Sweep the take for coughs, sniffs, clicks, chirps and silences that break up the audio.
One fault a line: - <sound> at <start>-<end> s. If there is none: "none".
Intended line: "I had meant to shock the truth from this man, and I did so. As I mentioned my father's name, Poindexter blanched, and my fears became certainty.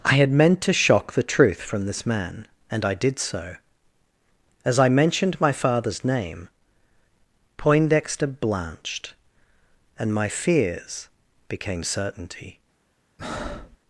- breath at 13.2-13.8 s